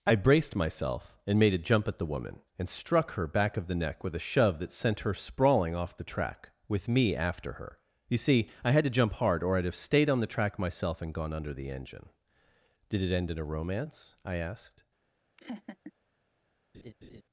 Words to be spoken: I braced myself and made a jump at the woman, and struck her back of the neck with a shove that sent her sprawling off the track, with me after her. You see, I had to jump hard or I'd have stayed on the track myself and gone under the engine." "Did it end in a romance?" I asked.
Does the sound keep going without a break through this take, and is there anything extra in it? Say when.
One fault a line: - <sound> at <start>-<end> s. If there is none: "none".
- laugh at 15.4-15.9 s
- laugh at 16.7-17.2 s